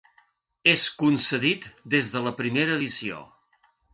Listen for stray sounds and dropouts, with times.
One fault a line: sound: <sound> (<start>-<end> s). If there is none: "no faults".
no faults